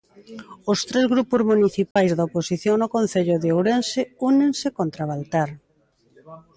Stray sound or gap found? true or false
true